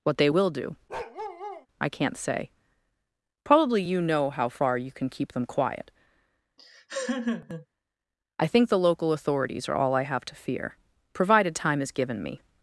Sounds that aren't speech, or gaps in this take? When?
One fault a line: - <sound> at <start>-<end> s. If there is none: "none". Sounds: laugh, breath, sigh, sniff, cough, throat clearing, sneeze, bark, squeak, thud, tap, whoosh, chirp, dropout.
- bark at 0.9-1.7 s
- laugh at 6.6-7.7 s